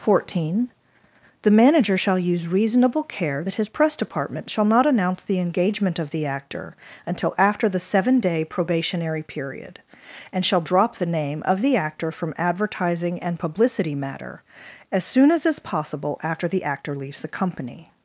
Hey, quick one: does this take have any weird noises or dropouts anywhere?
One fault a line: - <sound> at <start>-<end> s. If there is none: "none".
none